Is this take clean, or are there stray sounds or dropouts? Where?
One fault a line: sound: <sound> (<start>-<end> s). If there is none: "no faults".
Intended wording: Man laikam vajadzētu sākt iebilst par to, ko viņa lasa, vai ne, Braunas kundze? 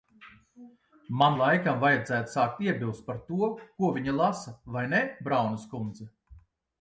no faults